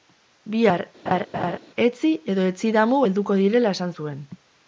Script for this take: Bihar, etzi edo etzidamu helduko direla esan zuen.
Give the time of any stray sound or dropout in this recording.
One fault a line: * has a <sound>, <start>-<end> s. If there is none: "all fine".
* has a laugh, 1.1-1.6 s